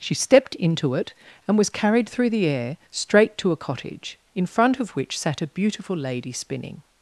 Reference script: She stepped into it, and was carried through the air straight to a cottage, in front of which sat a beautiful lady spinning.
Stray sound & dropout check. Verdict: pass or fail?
pass